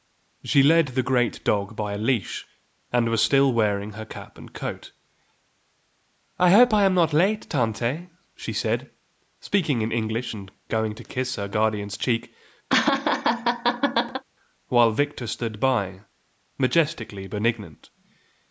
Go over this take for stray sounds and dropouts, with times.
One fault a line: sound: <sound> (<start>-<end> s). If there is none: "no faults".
sound: laugh (12.7-14.2 s)